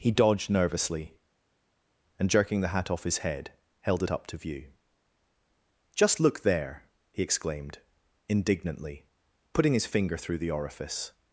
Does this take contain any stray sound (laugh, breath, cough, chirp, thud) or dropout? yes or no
no